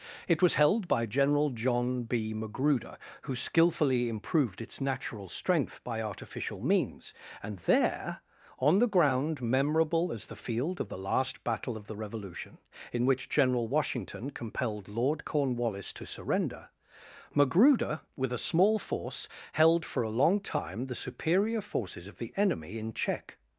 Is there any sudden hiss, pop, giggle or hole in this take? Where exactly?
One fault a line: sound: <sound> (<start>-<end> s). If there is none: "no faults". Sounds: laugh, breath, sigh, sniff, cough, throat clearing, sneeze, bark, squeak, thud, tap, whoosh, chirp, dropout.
no faults